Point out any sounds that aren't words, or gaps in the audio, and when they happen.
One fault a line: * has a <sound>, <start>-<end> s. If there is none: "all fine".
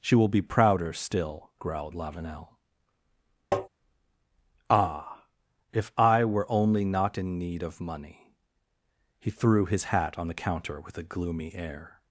* has a tap, 3.5-3.7 s